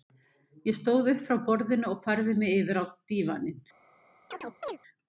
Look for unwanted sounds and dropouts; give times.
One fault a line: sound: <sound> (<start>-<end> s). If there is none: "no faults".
sound: chirp (4.3-4.8 s)